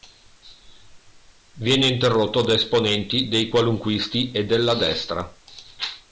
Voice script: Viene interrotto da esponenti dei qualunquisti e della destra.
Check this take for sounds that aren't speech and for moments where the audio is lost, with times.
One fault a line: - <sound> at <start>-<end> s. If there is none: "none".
none